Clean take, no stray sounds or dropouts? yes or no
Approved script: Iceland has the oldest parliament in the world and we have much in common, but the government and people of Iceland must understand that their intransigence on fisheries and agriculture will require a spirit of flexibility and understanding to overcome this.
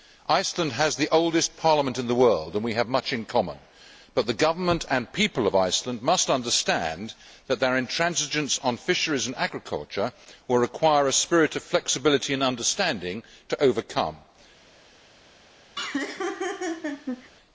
no